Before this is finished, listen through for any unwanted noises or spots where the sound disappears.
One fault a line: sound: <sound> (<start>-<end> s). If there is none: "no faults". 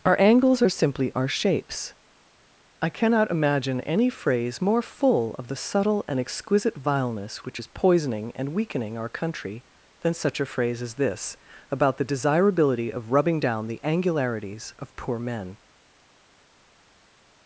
no faults